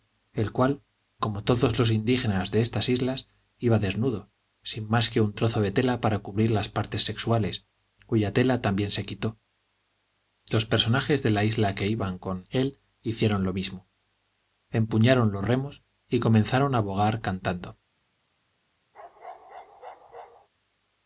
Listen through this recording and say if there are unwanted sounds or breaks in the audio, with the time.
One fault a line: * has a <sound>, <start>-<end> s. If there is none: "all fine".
* has a bark, 18.9-20.5 s